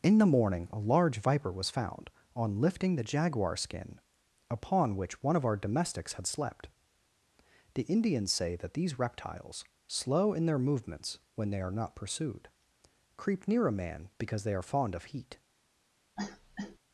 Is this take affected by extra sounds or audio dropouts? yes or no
yes